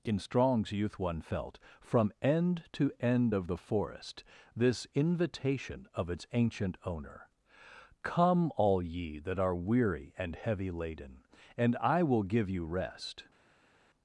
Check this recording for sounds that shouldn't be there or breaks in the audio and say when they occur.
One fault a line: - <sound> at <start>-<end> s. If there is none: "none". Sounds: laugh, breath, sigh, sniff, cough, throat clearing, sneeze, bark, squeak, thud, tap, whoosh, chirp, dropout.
none